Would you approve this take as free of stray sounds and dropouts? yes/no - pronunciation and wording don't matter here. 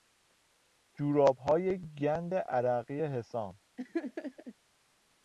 no